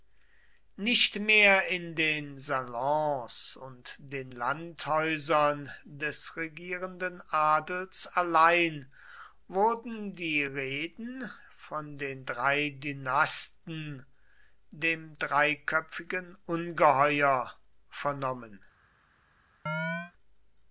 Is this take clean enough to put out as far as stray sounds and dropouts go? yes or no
no